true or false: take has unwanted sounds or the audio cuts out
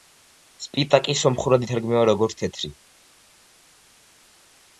false